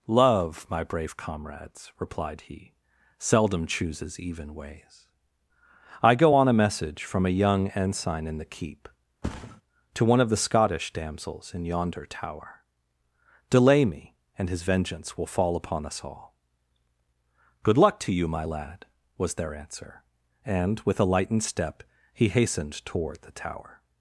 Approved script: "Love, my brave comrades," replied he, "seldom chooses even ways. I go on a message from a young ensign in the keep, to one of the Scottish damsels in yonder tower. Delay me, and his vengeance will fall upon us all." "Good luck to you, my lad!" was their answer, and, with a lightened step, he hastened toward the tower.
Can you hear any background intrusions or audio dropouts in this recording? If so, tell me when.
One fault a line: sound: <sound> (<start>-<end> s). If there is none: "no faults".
sound: thud (9.2-9.6 s)